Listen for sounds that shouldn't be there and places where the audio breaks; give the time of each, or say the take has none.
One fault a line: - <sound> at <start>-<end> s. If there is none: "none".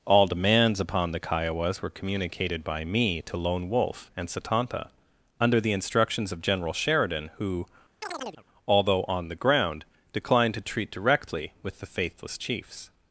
- chirp at 8.0-8.4 s